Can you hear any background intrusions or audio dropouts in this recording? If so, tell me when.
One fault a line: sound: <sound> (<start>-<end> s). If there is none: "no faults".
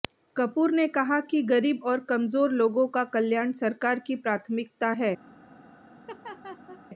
sound: laugh (6.1-6.8 s)